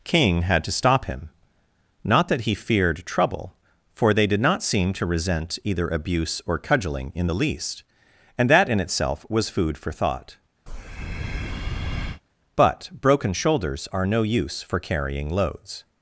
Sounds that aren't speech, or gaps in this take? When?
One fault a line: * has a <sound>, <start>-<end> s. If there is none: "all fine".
* has a breath, 10.7-12.2 s